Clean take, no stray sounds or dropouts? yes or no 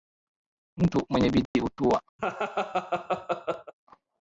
no